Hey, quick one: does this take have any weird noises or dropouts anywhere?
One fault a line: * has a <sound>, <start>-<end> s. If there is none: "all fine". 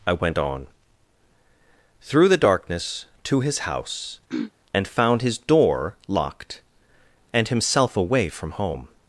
* has a throat clearing, 4.3-4.5 s